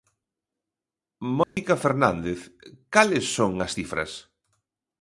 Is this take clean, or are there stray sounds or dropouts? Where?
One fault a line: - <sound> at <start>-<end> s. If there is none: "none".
- dropout at 1.4-1.6 s